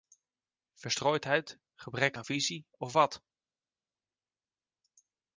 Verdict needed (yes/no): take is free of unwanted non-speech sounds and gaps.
yes